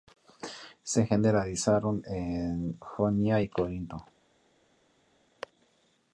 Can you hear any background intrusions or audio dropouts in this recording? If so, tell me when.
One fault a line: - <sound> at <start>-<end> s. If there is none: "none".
none